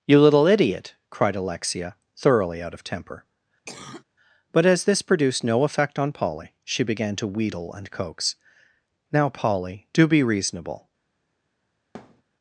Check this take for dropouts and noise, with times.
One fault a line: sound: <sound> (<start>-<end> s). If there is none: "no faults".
sound: cough (3.7-4.0 s)
sound: thud (11.9-12.2 s)